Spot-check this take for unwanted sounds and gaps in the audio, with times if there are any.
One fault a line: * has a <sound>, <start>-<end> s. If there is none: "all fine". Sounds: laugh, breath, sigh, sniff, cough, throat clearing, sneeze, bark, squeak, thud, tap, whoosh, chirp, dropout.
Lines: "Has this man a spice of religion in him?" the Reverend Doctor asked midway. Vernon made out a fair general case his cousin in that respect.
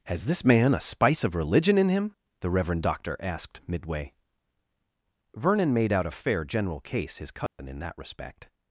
* has a dropout, 7.5-7.6 s